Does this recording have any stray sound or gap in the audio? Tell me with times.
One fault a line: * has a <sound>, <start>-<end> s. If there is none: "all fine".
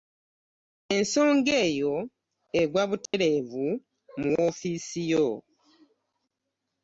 * has a dropout, 3.1-3.1 s